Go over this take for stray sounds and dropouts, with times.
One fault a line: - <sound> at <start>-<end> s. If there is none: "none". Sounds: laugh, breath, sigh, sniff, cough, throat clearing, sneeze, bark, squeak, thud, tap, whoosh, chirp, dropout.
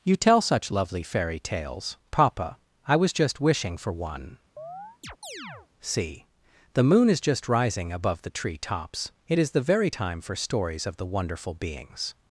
- chirp at 4.6-5.7 s